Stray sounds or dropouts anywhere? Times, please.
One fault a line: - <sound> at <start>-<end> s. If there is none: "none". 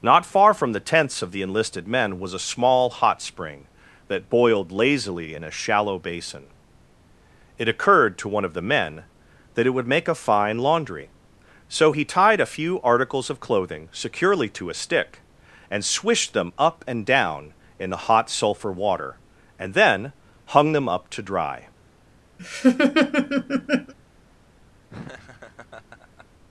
- laugh at 22.4-23.9 s
- laugh at 24.9-26.3 s